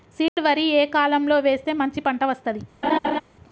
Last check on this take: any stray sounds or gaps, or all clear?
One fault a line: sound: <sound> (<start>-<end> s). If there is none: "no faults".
sound: dropout (0.3-0.4 s)
sound: laugh (2.8-3.2 s)